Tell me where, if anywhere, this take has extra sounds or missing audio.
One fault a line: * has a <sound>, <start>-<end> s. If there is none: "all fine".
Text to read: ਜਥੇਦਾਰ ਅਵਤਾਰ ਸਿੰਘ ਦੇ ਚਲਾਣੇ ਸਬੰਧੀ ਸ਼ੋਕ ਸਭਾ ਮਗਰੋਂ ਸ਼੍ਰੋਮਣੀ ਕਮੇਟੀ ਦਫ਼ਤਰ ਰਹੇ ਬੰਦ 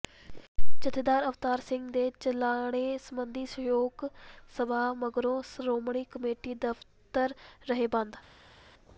all fine